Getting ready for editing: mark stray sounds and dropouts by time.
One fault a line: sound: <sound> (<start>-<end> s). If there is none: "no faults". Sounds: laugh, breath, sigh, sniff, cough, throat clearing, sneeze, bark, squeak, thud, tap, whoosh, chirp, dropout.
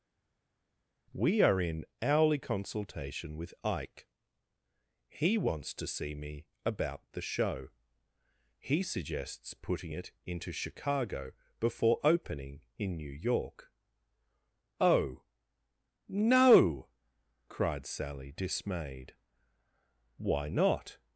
no faults